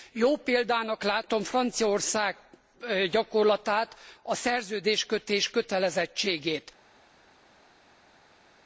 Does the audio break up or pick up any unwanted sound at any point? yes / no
no